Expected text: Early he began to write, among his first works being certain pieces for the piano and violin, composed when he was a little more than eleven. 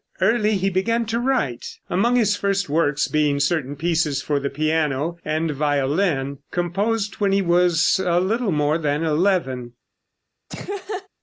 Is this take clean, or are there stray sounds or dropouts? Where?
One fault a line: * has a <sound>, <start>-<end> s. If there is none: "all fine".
* has a laugh, 10.5-11.1 s